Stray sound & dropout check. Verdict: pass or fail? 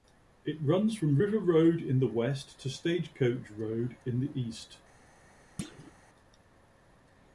fail